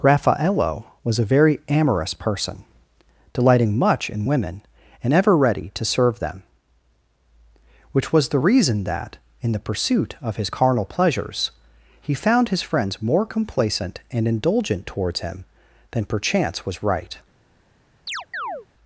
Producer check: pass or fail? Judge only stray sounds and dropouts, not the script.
fail